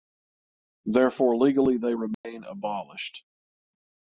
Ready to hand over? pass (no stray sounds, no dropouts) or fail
fail